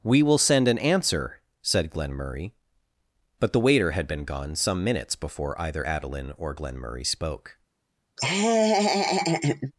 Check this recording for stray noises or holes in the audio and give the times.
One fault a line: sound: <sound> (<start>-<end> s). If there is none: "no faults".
sound: laugh (8.2-9.7 s)